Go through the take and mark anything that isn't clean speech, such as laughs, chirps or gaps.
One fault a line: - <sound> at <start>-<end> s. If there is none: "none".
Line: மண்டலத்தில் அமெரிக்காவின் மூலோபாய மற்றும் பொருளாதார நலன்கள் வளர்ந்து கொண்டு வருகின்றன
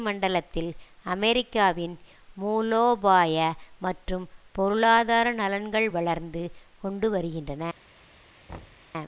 - thud at 8.5-8.9 s